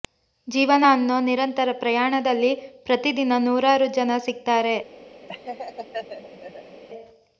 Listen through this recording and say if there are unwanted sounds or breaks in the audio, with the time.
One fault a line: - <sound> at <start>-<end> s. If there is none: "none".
- laugh at 5.3-6.8 s